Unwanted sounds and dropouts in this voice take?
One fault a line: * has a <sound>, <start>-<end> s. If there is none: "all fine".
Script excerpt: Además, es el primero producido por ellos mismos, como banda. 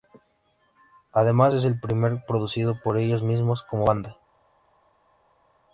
all fine